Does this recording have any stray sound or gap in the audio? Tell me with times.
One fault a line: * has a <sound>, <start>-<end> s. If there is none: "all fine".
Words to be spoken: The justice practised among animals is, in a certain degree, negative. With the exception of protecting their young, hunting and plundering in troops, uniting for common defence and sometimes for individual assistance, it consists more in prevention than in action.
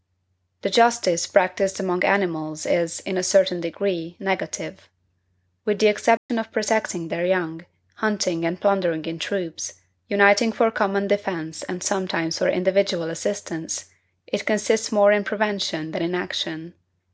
* has a dropout, 6.2-6.3 s